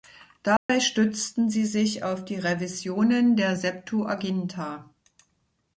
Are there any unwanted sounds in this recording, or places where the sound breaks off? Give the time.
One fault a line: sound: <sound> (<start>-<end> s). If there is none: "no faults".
sound: dropout (0.6-0.7 s)